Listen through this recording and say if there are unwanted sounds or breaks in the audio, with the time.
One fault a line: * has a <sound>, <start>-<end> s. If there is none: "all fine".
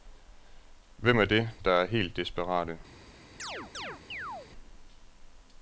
* has a chirp, 3.4-4.5 s